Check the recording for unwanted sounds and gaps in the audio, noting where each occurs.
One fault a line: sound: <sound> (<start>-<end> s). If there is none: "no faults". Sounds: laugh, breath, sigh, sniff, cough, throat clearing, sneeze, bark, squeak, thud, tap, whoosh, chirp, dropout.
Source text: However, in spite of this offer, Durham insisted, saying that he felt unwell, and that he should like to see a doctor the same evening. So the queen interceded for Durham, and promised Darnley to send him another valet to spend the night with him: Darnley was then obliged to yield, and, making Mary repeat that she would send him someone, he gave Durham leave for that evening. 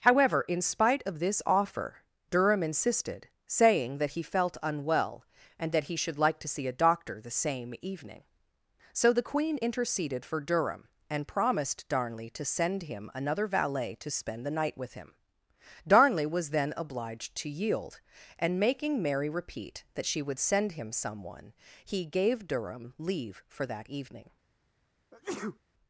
sound: sneeze (25.1-25.6 s)